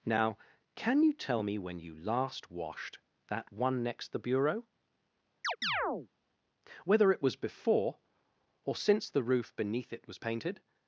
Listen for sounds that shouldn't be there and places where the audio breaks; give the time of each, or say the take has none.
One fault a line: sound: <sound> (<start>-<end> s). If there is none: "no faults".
sound: chirp (5.4-6.1 s)